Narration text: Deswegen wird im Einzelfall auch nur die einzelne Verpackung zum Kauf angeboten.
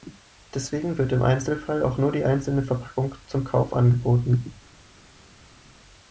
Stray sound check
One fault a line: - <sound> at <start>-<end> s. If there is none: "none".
none